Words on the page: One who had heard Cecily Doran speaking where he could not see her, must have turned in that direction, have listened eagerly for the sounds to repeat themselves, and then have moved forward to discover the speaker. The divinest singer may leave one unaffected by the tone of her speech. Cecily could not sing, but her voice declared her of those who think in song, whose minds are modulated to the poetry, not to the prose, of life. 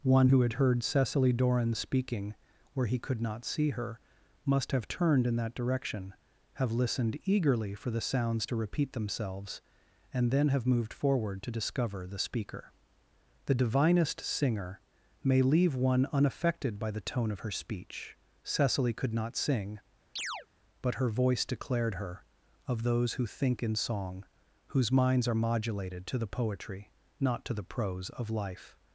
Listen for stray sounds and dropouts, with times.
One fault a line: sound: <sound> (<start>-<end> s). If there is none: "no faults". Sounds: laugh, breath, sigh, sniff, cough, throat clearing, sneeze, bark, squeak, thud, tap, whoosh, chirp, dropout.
sound: chirp (20.2-20.5 s)